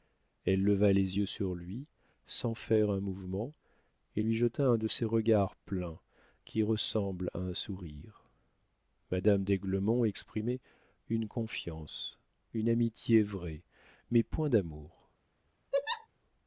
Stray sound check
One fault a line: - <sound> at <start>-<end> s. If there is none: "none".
- laugh at 15.7-16.1 s